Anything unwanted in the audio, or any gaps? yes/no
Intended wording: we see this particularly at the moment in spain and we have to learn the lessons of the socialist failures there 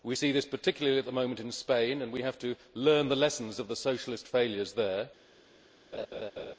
yes